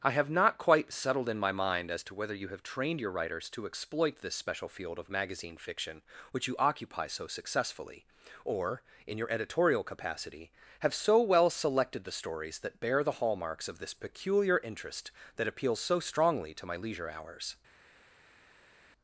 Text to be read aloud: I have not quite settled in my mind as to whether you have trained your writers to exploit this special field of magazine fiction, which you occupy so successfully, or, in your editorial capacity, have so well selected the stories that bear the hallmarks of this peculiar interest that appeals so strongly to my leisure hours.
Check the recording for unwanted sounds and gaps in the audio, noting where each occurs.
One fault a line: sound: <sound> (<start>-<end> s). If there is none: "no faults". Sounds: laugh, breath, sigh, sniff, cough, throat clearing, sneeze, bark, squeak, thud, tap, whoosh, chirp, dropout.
no faults